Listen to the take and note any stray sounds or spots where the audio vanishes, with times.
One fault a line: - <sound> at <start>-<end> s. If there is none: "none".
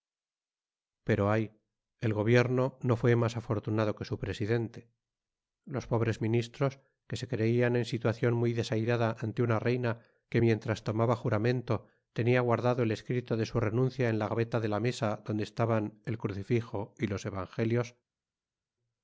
none